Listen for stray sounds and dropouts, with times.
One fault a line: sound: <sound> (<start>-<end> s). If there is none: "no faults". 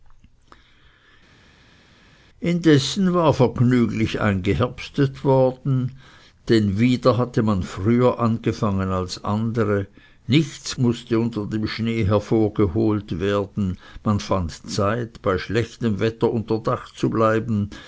no faults